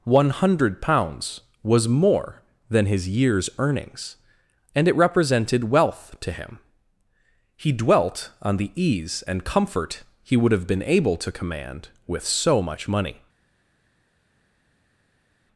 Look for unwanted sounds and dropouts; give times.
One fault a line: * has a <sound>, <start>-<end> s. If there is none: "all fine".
all fine